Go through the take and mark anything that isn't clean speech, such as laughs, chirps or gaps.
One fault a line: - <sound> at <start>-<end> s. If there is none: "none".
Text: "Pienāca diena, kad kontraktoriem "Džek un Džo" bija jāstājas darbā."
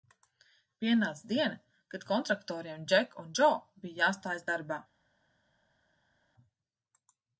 none